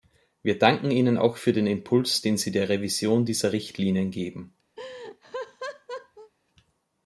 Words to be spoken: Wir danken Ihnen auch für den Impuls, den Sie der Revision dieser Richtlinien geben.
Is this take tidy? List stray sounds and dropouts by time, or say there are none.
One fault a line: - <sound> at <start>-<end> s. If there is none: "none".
- laugh at 4.8-6.3 s